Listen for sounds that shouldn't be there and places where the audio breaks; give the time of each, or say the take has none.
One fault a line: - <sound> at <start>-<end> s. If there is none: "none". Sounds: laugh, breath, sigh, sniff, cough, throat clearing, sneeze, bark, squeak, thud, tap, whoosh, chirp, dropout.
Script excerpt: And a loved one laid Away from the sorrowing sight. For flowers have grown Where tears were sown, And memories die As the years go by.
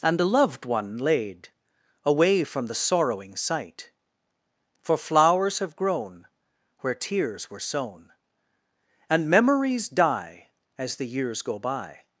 none